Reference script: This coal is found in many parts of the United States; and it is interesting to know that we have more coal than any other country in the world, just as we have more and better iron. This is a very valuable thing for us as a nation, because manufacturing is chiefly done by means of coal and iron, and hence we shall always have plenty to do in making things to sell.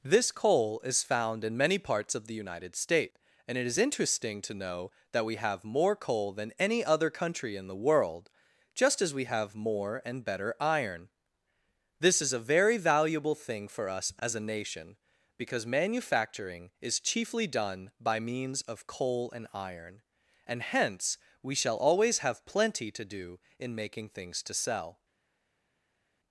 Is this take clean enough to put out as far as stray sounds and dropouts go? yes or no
yes